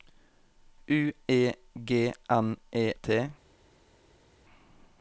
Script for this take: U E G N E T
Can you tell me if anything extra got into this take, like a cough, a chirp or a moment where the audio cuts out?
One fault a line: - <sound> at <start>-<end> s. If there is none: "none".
none